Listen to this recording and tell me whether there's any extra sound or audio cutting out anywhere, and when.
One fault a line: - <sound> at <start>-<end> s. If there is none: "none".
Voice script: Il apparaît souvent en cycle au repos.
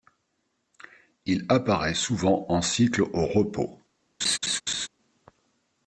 - laugh at 4.2-4.9 s